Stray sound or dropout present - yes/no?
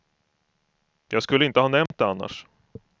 yes